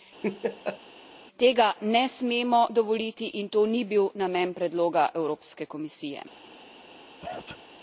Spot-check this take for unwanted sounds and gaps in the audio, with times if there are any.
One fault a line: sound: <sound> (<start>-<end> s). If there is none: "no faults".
sound: laugh (0.2-0.8 s)
sound: sneeze (7.2-7.6 s)